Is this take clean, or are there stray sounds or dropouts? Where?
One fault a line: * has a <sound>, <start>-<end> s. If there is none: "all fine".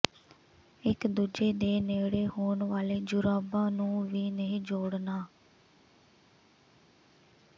all fine